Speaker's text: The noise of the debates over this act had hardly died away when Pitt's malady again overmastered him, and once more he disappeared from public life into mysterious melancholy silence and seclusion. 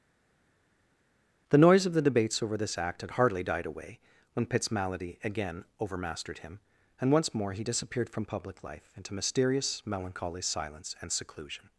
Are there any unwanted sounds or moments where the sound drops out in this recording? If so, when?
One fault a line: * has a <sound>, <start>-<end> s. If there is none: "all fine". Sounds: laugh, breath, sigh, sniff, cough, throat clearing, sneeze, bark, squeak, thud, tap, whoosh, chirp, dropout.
all fine